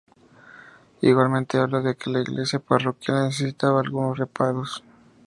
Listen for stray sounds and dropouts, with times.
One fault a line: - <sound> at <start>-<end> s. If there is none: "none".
none